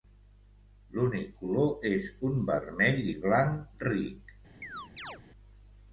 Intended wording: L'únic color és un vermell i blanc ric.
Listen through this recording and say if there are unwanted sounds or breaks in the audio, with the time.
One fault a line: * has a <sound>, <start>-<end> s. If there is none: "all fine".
* has a chirp, 4.6-5.2 s